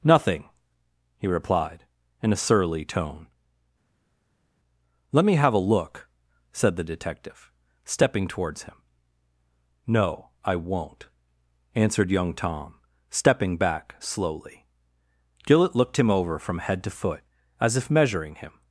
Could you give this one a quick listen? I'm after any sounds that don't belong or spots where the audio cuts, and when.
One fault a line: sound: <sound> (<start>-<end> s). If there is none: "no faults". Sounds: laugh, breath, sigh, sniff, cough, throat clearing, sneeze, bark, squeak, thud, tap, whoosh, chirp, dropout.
no faults